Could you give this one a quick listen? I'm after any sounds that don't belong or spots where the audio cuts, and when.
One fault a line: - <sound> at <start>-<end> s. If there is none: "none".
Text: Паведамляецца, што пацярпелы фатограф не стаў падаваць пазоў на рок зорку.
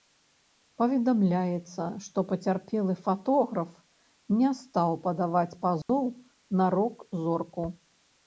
- dropout at 5.8-5.9 s